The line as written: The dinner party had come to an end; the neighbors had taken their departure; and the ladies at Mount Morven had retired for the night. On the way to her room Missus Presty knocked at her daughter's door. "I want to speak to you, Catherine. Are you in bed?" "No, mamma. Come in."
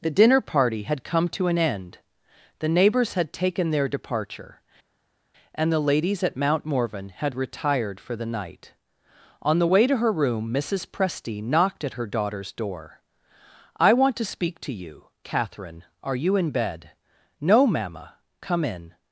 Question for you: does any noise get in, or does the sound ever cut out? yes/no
no